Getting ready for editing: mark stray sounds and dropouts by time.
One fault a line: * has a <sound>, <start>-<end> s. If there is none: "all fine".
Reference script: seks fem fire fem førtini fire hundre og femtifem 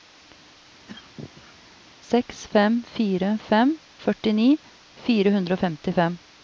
* has a cough, 0.9-1.6 s